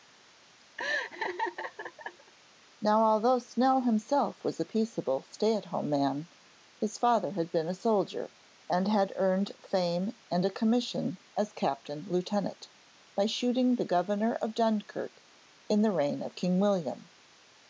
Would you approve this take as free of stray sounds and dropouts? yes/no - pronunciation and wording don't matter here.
no